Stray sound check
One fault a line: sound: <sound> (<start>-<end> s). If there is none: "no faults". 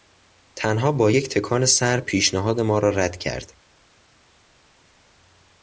no faults